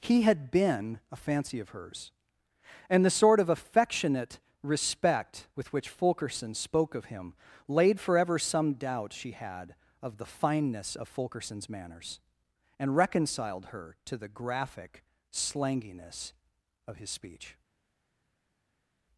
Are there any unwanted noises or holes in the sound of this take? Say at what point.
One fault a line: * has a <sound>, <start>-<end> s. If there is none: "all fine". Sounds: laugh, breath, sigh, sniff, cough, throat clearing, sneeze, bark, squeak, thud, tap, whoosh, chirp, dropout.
all fine